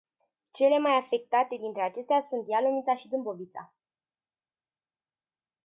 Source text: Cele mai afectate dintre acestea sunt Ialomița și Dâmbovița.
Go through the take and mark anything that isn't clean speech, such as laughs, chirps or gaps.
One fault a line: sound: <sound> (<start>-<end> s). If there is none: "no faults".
no faults